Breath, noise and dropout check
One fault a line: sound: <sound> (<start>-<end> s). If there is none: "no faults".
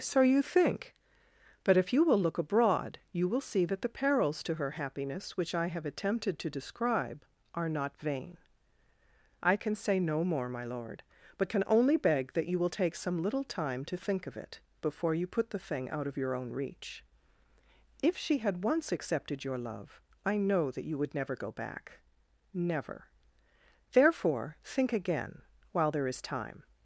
no faults